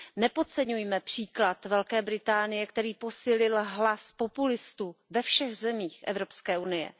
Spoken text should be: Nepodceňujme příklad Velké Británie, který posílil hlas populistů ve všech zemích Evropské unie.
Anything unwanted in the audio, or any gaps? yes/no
no